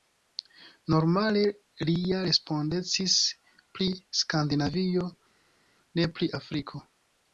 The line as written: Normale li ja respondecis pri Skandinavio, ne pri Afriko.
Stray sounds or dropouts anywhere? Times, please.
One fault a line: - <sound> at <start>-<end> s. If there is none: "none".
none